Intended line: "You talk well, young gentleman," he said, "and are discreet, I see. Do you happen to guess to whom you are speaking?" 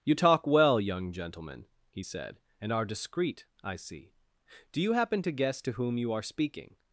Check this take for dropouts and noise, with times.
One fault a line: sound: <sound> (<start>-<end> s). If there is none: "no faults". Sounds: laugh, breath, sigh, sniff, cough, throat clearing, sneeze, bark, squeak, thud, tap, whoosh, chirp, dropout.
no faults